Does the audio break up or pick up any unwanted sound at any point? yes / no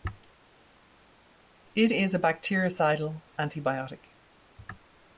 no